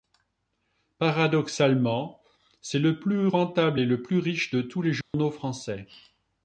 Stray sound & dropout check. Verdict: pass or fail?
fail